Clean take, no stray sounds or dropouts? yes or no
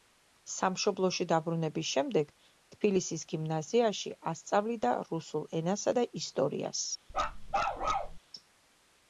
no